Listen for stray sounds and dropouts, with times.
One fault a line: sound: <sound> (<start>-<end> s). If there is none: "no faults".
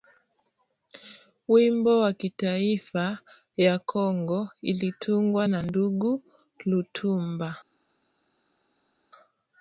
no faults